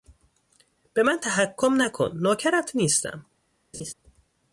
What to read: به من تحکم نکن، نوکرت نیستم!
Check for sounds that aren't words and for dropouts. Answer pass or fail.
fail